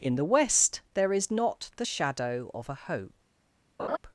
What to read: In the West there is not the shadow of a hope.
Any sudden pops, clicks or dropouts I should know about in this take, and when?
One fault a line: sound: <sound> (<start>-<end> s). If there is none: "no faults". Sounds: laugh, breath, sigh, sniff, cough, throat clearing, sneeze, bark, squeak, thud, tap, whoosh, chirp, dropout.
sound: laugh (3.8-4.0 s)